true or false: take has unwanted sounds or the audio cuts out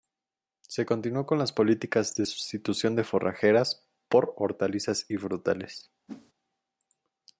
true